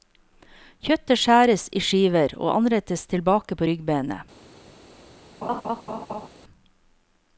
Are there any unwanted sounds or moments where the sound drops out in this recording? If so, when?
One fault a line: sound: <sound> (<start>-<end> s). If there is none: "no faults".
sound: laugh (5.4-6.3 s)